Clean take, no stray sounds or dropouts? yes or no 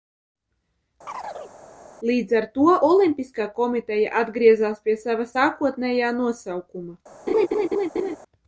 no